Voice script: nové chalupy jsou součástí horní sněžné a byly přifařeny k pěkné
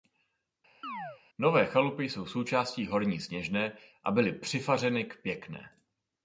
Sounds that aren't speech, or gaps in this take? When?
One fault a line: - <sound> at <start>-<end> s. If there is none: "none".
- chirp at 0.8-1.2 s